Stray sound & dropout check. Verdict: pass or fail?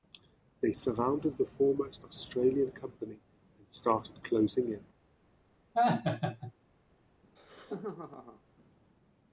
fail